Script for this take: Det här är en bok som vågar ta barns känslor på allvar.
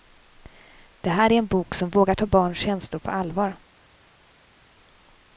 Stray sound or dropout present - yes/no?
no